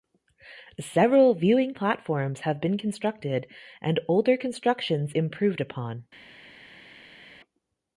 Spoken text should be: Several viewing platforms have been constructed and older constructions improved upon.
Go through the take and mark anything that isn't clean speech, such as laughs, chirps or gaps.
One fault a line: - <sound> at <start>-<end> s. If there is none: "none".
none